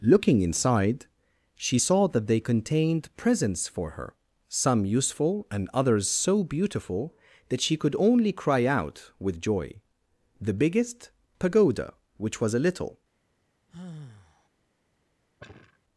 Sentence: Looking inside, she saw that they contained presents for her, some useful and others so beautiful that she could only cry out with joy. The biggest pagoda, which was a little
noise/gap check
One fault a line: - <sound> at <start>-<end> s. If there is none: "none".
- sigh at 13.7-14.5 s
- sigh at 15.4-15.8 s